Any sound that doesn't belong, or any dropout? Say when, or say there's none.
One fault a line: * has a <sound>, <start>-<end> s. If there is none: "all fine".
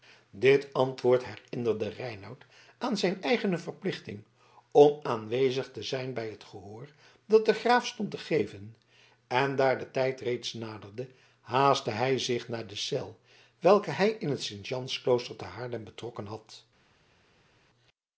all fine